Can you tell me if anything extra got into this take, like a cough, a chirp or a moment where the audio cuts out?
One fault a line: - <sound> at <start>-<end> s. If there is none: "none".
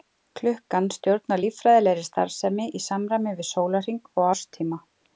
none